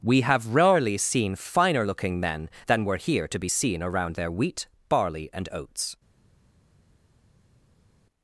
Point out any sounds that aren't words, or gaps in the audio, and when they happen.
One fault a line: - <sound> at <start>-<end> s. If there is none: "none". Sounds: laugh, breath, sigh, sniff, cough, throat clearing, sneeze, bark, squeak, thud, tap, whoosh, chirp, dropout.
none